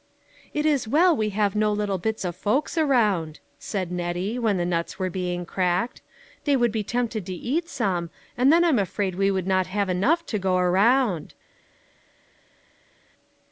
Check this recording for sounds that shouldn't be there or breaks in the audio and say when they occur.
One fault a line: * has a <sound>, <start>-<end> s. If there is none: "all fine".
all fine